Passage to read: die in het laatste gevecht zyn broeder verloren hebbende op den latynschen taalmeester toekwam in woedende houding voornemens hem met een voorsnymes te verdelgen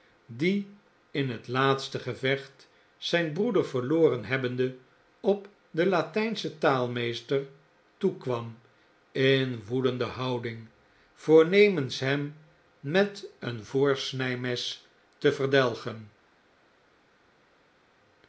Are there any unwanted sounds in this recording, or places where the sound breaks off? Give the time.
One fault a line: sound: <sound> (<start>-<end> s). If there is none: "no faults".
no faults